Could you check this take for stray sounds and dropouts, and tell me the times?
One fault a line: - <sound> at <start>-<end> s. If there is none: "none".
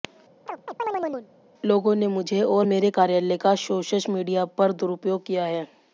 - chirp at 0.5-1.3 s